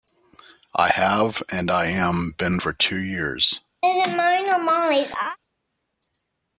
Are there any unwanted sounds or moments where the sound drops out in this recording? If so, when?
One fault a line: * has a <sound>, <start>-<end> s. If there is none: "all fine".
* has a laugh, 3.8-5.4 s